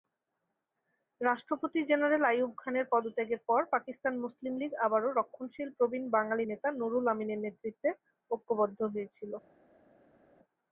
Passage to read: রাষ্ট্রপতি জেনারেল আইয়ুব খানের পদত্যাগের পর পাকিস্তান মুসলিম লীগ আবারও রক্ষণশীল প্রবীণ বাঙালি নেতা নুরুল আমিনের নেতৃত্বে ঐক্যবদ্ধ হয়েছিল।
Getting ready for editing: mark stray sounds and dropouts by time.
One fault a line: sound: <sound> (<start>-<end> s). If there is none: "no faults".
no faults